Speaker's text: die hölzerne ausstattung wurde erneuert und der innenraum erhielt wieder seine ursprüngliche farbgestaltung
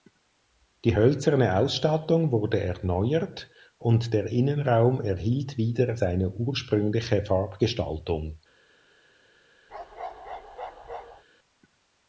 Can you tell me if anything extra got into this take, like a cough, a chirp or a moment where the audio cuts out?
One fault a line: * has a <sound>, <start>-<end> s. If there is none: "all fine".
* has a bark, 9.7-11.2 s